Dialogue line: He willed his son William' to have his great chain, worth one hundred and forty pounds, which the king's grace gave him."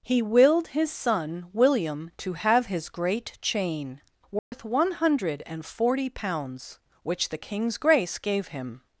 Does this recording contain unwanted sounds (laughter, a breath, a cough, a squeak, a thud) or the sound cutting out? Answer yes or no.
yes